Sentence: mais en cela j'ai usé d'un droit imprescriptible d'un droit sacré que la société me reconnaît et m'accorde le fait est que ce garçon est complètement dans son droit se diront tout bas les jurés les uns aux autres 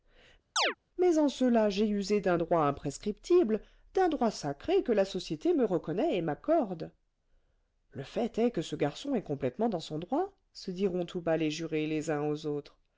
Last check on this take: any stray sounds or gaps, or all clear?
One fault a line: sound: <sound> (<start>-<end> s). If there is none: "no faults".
sound: chirp (0.6-0.7 s)